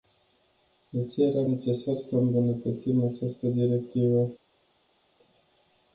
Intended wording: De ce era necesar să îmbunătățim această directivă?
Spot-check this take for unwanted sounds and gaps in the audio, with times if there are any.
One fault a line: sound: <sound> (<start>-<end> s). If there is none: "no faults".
no faults